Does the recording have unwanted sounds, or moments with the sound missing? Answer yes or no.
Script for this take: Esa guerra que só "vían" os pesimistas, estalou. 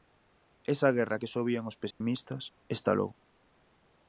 yes